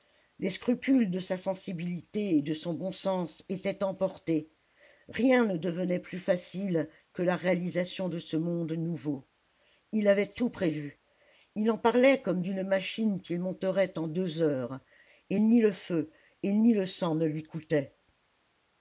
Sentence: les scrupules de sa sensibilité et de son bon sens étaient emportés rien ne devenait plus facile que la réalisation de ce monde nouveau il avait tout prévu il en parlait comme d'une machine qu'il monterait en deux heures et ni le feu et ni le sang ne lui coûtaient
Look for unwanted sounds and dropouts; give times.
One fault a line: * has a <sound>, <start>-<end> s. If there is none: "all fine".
all fine